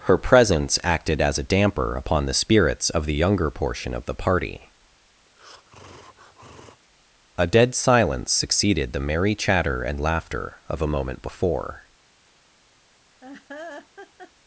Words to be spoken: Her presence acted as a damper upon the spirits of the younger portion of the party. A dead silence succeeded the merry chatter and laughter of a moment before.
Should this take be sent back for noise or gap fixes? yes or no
yes